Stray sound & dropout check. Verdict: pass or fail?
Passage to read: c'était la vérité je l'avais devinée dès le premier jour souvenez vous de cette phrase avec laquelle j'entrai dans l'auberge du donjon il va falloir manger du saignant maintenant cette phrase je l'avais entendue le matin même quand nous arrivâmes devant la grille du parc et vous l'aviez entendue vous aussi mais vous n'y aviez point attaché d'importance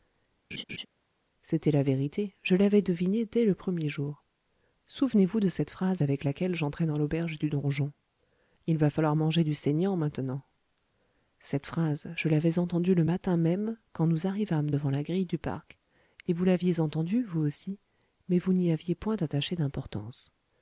fail